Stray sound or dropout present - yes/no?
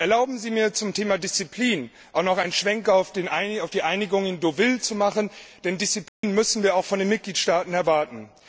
yes